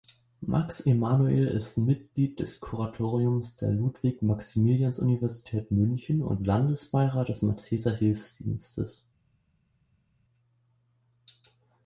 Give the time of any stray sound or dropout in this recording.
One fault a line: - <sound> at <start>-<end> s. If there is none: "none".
none